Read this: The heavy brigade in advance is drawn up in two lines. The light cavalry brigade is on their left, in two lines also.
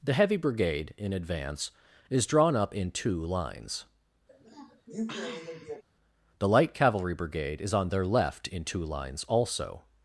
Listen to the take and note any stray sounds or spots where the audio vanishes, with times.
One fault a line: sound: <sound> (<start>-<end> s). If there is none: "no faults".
sound: sniff (4.3-5.8 s)